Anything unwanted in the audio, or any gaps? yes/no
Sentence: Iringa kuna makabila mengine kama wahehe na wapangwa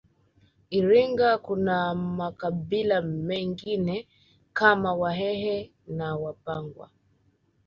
no